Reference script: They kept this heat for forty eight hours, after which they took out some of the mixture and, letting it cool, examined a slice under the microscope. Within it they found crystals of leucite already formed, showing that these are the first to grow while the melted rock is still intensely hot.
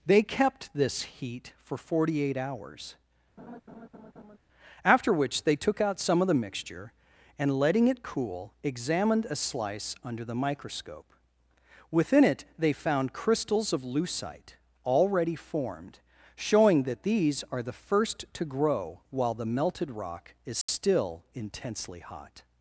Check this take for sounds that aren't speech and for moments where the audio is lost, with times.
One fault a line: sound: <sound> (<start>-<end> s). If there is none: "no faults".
sound: laugh (3.4-4.4 s)
sound: dropout (20.6-20.7 s)